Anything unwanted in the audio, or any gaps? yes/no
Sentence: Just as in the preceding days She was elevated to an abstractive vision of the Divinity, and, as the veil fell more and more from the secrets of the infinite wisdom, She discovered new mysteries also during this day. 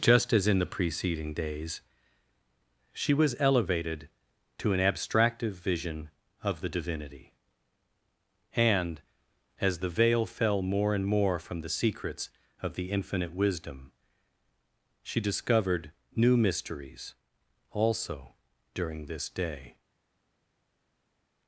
no